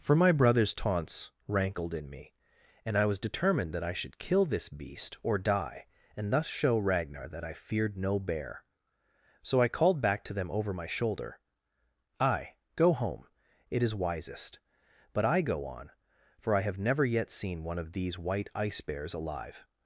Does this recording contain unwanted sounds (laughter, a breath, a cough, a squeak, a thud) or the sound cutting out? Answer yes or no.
no